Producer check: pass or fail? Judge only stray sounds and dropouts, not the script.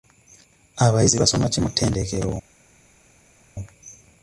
pass